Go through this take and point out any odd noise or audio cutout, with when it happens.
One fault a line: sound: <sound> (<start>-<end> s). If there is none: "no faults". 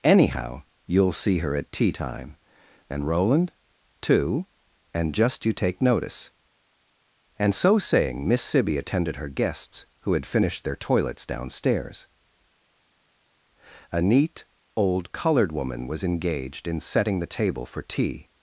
no faults